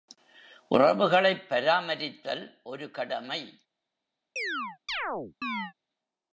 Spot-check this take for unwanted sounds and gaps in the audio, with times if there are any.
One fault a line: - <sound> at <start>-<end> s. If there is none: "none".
- chirp at 4.4-5.7 s